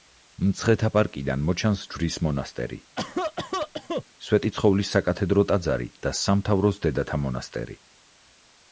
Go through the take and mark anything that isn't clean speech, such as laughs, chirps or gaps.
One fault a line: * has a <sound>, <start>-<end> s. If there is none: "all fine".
* has a cough, 3.0-4.0 s